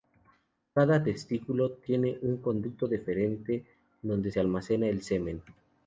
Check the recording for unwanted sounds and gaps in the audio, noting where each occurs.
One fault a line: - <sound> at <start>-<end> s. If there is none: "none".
none